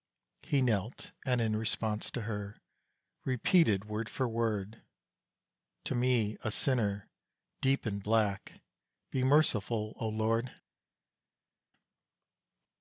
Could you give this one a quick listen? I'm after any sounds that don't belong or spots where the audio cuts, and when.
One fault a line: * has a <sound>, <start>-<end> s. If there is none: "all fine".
all fine